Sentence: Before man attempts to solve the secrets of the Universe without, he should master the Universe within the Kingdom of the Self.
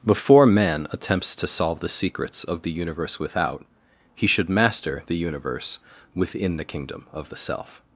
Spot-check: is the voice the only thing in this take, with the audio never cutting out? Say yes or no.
yes